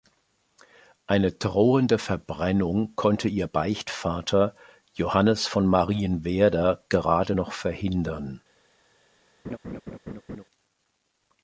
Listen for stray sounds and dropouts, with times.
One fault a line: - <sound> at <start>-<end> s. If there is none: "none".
- laugh at 9.4-10.4 s